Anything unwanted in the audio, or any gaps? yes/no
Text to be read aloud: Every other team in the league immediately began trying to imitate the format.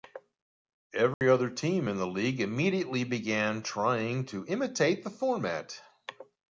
yes